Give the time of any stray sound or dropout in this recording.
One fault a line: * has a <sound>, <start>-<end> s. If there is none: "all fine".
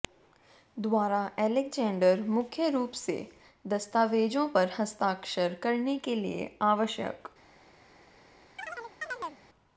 * has a chirp, 8.6-9.4 s